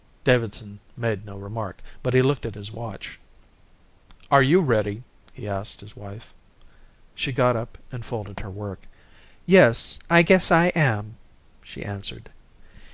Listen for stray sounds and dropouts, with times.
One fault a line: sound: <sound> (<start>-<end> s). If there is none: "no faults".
no faults